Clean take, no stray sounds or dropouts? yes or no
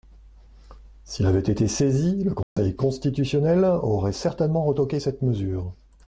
no